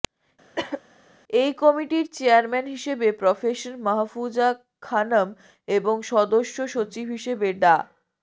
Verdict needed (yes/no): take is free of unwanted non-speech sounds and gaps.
no